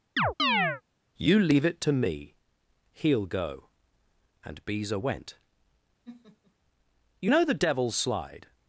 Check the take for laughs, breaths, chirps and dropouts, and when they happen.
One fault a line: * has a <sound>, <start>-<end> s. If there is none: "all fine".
* has a chirp, 0.2-0.8 s
* has a laugh, 6.0-6.5 s